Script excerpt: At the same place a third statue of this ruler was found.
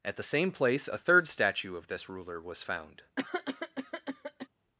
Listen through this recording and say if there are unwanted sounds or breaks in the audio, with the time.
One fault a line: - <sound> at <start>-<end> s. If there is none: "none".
- cough at 3.2-4.5 s